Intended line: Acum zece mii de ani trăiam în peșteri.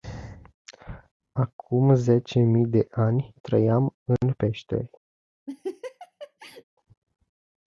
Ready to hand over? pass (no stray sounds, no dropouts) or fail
fail